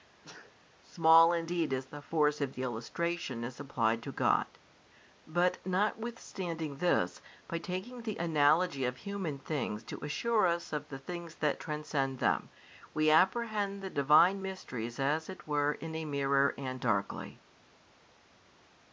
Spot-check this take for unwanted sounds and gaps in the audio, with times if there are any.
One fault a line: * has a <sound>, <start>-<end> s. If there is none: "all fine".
* has a sneeze, 0.2-0.5 s